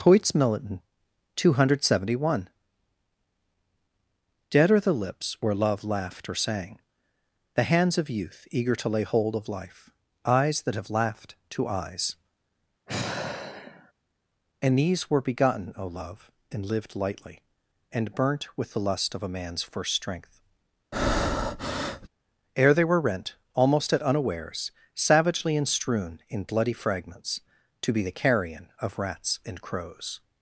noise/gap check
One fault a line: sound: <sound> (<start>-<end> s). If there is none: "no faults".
sound: sigh (12.9-13.9 s)
sound: breath (20.9-22.1 s)